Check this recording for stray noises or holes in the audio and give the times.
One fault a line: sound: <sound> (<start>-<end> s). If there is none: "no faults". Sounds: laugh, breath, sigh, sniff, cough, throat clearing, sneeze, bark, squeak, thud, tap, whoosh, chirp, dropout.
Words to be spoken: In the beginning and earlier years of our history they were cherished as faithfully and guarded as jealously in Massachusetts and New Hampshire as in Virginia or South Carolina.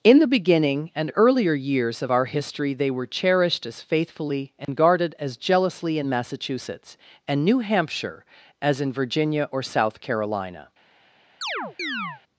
sound: dropout (4.6-4.7 s)
sound: chirp (11.4-12.2 s)